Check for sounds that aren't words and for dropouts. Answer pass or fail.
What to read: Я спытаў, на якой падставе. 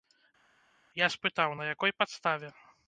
pass